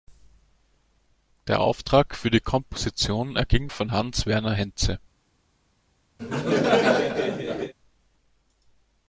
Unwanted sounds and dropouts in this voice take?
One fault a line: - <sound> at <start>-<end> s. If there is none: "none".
- laugh at 6.2-7.7 s